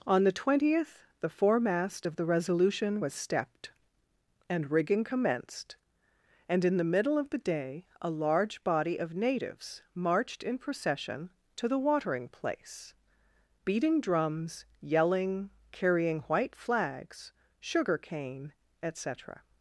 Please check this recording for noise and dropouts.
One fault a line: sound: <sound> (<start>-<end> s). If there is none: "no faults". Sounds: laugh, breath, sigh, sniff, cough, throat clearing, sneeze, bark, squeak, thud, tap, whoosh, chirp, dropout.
no faults